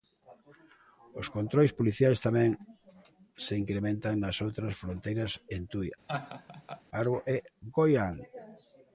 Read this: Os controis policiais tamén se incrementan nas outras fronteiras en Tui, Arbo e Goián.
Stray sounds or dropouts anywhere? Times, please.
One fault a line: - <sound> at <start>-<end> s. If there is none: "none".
- laugh at 6.1-6.8 s